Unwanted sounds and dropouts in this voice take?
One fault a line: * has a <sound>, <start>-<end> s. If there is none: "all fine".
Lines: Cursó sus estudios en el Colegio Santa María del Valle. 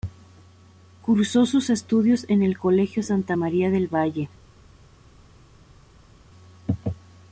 all fine